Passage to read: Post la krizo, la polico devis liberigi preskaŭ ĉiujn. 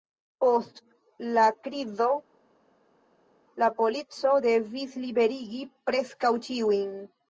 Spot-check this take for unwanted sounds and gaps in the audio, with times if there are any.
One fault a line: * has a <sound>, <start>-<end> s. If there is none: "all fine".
all fine